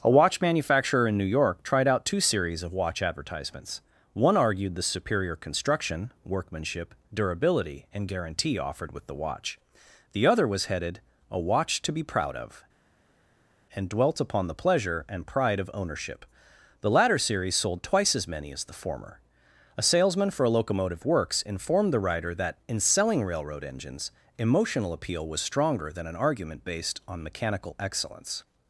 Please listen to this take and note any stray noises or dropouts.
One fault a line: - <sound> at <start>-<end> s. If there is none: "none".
none